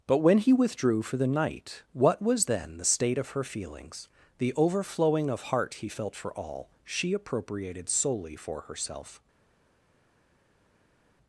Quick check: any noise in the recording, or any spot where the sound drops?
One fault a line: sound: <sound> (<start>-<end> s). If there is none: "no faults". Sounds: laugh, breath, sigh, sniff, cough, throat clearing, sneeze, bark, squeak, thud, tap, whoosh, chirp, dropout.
no faults